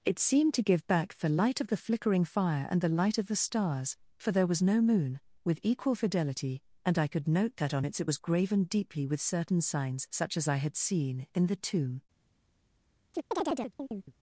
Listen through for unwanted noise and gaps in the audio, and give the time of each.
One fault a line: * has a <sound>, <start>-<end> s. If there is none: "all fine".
* has a chirp, 13.1-14.1 s